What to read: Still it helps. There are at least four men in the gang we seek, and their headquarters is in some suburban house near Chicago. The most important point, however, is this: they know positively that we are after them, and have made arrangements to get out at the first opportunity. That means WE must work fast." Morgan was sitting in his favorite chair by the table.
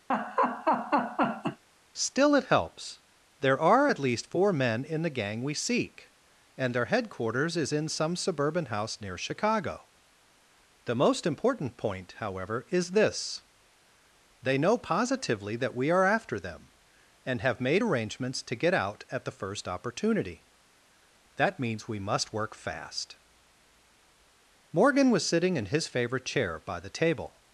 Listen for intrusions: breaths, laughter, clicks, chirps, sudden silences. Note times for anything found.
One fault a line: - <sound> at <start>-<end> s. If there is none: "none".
- laugh at 0.1-1.6 s